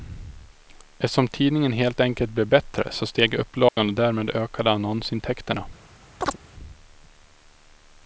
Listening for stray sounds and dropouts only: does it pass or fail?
fail